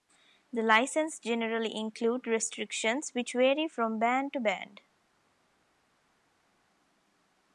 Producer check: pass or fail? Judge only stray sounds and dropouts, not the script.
pass